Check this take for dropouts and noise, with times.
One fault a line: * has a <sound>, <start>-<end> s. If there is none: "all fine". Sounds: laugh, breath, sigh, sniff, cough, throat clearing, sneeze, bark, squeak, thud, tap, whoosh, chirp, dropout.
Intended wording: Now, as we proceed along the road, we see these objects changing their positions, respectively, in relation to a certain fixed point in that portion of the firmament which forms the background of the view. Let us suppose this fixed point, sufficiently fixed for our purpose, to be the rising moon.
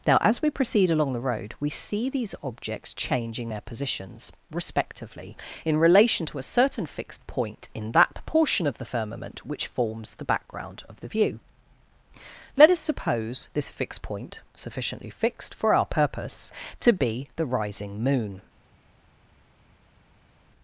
all fine